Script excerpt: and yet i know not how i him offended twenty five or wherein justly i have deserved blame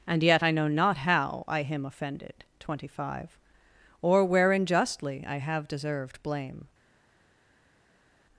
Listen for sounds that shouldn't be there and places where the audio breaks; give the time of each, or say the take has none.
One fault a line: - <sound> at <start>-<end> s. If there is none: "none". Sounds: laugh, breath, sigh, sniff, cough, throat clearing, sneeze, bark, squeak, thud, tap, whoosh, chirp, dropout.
none